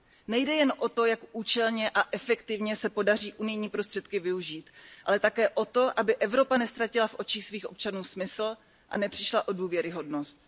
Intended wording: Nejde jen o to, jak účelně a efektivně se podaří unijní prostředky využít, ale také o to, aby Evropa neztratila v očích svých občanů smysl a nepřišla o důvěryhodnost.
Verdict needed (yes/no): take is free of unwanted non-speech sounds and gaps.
yes